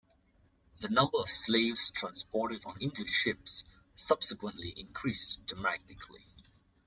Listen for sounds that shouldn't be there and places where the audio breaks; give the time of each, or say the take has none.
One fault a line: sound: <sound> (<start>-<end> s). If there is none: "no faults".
no faults